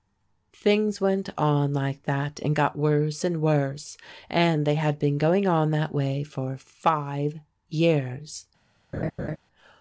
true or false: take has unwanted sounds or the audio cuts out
true